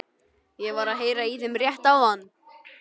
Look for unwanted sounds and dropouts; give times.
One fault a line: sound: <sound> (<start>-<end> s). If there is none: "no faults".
no faults